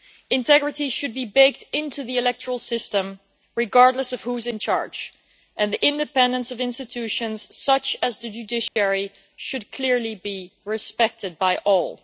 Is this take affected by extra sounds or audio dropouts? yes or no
yes